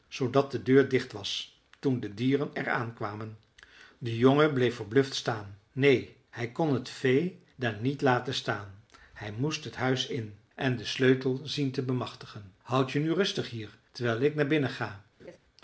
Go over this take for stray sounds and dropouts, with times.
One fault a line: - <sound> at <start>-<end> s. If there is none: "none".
- laugh at 15.2-15.4 s